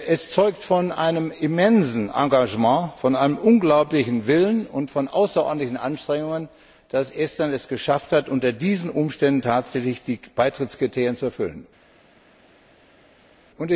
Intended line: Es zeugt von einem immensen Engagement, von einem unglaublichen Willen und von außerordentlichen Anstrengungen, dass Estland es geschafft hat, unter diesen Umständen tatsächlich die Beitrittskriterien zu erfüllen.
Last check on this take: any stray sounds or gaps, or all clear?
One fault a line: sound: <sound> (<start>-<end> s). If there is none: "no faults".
no faults